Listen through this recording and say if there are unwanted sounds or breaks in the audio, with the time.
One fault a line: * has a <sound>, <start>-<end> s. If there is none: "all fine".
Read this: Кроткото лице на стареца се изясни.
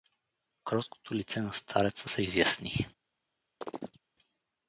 * has a chirp, 3.6-4.0 s